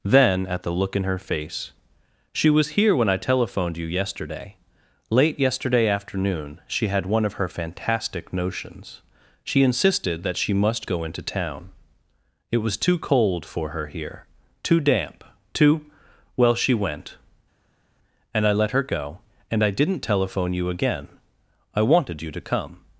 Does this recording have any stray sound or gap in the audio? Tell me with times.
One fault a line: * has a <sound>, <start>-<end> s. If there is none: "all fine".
all fine